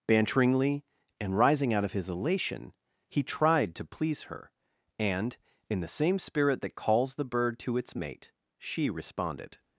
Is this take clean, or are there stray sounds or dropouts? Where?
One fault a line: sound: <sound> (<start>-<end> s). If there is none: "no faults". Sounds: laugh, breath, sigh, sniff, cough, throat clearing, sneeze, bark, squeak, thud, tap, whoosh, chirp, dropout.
no faults